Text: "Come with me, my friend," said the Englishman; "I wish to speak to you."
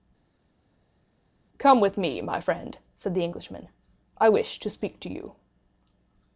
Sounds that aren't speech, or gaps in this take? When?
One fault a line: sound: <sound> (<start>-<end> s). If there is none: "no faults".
no faults